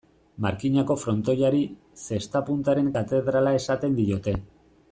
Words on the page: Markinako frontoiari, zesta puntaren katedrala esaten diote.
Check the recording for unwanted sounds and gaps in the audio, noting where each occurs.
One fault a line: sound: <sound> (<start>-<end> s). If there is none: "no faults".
no faults